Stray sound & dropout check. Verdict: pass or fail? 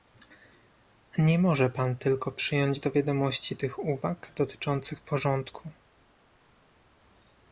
pass